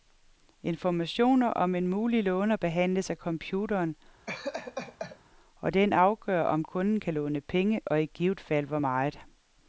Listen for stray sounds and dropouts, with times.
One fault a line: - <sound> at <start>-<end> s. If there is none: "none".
- laugh at 4.3-5.2 s